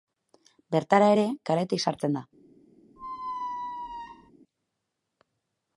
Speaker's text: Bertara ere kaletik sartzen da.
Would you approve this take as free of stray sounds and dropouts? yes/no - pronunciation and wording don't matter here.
no